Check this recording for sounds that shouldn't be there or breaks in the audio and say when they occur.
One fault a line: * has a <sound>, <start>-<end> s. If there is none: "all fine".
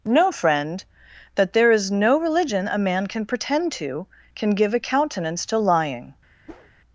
* has a whoosh, 6.5-6.7 s